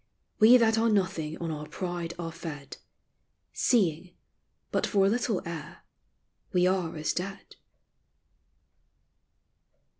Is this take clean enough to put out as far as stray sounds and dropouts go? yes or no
yes